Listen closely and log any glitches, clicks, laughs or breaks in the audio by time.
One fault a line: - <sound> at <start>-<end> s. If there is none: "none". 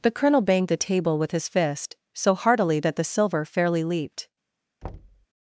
- thud at 4.8-5.3 s